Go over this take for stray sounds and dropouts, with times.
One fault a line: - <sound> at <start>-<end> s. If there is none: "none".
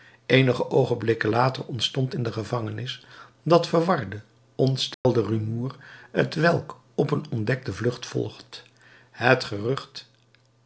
- dropout at 4.9-5.0 s